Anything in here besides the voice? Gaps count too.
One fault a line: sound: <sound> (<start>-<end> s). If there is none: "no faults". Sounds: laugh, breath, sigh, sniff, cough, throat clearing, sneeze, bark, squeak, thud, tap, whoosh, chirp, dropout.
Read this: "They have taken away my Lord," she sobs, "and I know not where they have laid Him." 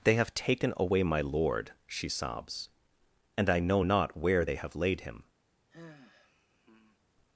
sound: sigh (5.7-7.0 s)